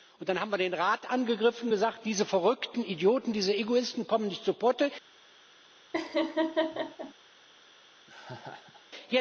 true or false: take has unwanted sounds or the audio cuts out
true